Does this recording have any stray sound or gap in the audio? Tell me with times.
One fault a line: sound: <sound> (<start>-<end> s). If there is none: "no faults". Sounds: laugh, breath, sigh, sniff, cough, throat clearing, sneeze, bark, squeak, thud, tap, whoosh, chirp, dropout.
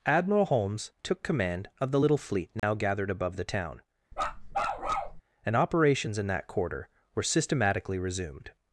sound: dropout (2.6-2.6 s)
sound: bark (4.1-5.2 s)